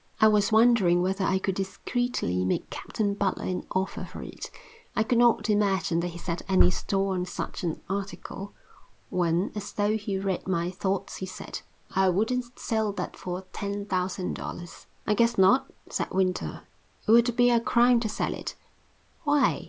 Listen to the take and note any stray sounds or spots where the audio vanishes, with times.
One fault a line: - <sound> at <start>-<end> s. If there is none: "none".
none